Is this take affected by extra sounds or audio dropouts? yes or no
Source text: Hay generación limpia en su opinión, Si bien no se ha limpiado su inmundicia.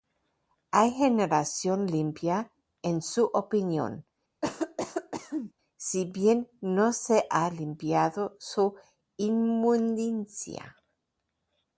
yes